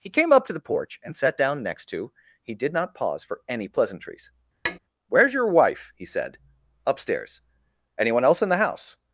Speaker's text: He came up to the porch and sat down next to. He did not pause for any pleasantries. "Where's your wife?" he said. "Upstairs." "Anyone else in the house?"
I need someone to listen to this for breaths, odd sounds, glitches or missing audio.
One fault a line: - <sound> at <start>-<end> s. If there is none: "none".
- tap at 4.7-4.8 s